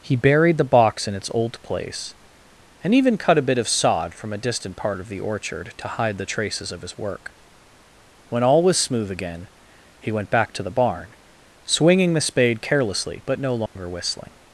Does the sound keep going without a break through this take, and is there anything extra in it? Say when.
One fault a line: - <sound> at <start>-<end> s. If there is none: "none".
- dropout at 13.7-13.8 s